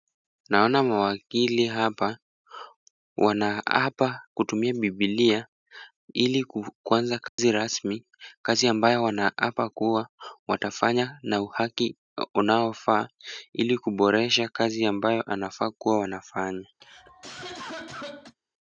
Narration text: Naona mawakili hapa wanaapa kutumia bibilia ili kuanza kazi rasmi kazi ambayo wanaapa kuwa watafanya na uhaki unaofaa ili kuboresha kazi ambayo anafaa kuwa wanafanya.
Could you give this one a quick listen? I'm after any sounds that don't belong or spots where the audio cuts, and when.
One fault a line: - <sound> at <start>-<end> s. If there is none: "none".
- dropout at 7.3-7.4 s
- cough at 16.8-18.4 s